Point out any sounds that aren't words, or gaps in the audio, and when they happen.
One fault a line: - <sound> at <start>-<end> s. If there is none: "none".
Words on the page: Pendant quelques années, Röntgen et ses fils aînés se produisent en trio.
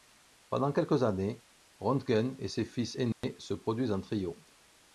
- dropout at 3.1-3.2 s